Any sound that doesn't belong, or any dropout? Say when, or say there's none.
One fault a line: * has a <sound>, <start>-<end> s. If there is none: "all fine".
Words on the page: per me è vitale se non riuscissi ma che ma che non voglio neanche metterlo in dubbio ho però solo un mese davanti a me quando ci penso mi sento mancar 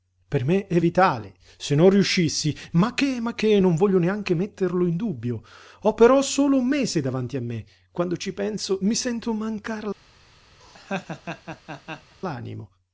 * has a laugh, 10.6-12.2 s